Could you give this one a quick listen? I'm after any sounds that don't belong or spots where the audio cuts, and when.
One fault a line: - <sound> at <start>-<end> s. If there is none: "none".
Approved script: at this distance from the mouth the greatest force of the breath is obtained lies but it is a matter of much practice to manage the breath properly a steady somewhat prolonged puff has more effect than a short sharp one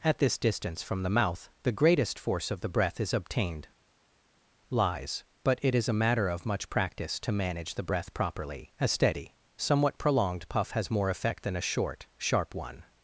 none